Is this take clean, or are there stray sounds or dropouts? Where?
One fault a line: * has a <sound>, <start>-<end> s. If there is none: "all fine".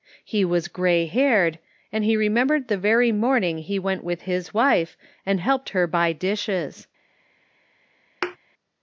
* has a thud, 8.2-8.4 s